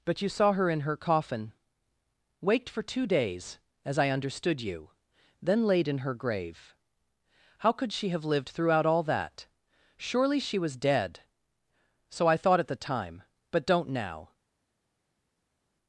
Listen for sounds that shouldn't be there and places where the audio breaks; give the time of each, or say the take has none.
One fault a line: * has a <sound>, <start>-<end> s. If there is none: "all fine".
all fine